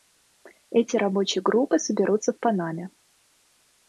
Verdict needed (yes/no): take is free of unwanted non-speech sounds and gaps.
yes